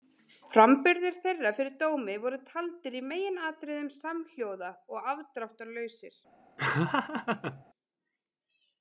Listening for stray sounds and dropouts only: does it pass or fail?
fail